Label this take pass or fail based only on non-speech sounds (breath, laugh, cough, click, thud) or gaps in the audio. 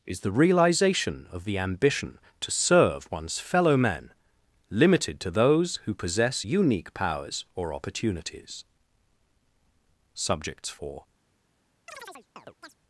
fail